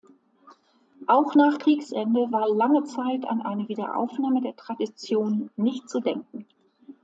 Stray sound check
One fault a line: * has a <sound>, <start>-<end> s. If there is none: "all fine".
all fine